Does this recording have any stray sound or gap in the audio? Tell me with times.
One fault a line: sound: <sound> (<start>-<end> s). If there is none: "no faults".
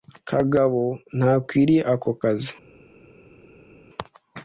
no faults